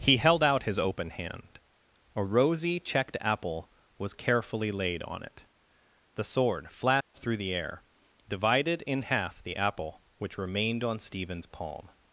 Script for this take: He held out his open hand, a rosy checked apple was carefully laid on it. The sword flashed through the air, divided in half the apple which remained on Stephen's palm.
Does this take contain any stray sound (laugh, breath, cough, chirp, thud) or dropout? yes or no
yes